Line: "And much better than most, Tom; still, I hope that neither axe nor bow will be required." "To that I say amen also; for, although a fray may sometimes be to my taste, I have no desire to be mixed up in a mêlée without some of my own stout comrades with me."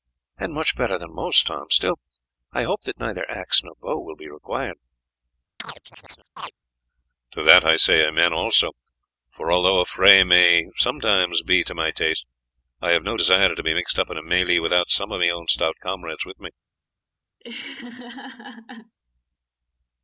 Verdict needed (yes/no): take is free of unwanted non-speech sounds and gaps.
no